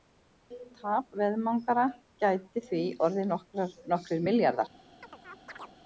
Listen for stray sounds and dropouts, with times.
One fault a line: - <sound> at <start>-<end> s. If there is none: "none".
- chirp at 5.0-5.8 s